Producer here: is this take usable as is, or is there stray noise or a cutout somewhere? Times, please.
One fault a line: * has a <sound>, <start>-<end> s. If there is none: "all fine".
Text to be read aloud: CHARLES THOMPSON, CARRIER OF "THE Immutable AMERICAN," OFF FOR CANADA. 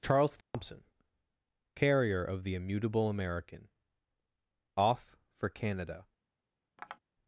* has a dropout, 0.4-0.5 s
* has a tap, 6.8-7.0 s